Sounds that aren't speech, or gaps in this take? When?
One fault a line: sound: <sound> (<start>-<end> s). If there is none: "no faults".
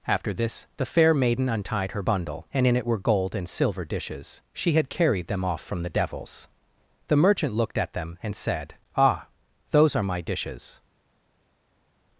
no faults